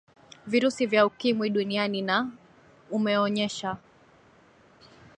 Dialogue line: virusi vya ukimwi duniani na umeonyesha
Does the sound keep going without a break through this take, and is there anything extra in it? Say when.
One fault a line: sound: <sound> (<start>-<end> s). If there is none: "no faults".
no faults